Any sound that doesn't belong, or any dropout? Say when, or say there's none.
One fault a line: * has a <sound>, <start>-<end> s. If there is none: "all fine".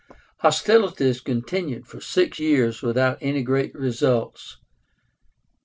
all fine